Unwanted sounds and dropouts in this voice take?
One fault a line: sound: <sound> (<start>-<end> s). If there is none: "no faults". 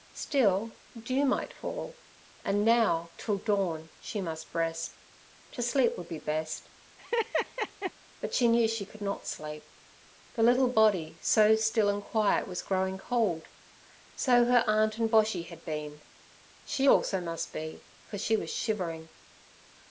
sound: laugh (7.0-7.9 s)